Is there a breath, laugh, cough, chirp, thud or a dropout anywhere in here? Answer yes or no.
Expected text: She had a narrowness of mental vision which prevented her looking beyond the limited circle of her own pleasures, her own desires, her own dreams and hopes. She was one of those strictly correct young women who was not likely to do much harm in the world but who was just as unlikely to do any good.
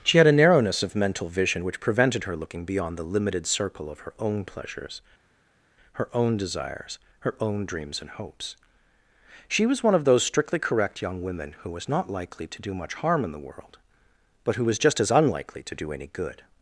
no